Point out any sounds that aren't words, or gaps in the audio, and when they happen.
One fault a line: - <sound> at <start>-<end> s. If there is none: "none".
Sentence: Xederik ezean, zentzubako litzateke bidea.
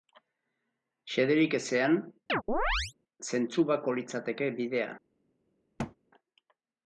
- chirp at 2.3-2.9 s
- thud at 5.8-6.0 s